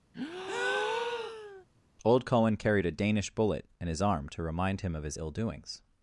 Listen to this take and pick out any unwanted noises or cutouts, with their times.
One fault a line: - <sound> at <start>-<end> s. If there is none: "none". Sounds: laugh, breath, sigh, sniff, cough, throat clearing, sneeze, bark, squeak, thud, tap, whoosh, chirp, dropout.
- breath at 0.1-1.7 s